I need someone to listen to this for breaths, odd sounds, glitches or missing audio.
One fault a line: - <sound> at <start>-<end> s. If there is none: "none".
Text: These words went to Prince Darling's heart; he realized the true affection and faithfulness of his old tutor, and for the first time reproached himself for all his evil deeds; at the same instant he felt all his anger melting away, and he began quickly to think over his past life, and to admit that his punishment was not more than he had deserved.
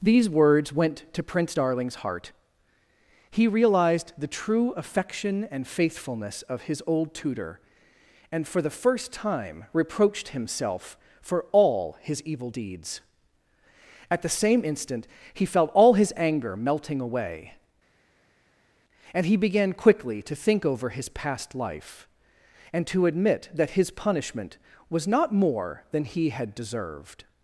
none